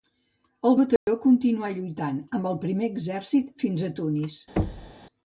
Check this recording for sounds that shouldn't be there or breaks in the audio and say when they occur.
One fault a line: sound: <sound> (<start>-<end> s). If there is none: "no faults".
sound: dropout (1.0-1.1 s)
sound: thud (4.6-4.9 s)